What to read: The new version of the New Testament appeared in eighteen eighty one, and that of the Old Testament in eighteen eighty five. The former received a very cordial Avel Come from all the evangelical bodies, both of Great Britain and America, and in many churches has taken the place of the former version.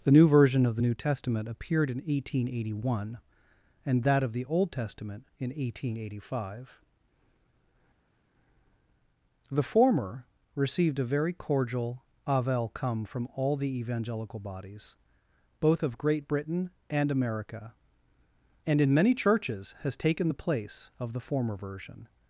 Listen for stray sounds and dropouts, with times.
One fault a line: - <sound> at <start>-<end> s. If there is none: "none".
none